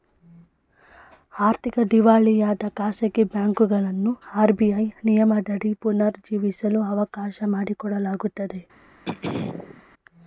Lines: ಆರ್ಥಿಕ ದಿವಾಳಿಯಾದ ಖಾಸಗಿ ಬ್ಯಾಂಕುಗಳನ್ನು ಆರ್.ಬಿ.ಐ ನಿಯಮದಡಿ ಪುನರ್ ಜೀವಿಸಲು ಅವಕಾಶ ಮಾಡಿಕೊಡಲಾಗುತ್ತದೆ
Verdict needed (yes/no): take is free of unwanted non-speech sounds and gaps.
no